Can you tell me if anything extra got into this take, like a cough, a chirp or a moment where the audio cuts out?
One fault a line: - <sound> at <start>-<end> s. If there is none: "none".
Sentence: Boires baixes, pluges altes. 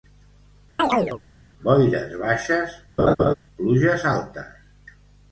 - chirp at 0.8-1.2 s
- laugh at 3.0-3.3 s